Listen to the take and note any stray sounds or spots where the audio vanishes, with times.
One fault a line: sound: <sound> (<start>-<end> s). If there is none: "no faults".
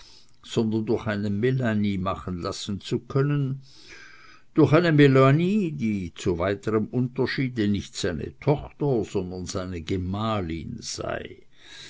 no faults